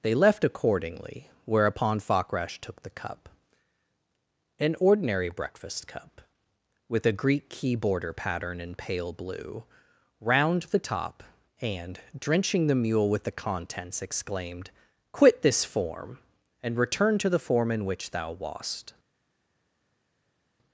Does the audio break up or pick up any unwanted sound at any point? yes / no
no